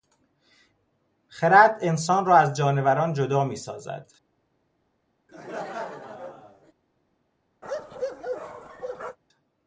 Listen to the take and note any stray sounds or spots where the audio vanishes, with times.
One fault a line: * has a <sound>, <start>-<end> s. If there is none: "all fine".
* has a laugh, 5.3-6.7 s
* has a bark, 7.6-9.2 s